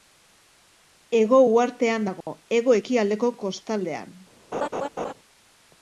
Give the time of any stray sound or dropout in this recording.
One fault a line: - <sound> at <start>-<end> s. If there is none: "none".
- dropout at 2.2-2.3 s
- laugh at 4.5-5.1 s